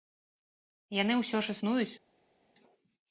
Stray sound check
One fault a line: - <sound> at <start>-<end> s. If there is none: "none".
none